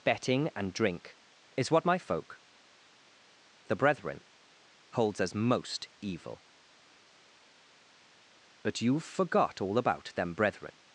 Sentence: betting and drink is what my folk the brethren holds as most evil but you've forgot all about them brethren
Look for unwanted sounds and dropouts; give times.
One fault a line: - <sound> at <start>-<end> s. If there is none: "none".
none